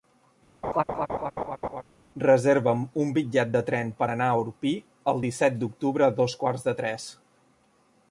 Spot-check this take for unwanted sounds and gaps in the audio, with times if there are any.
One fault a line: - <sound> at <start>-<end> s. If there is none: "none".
- laugh at 0.6-1.8 s